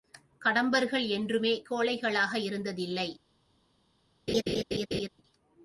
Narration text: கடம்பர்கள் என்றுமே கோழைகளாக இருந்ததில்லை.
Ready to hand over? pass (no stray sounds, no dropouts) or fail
fail